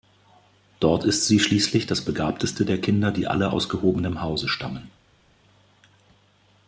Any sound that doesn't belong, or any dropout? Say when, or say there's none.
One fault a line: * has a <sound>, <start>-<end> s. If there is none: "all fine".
all fine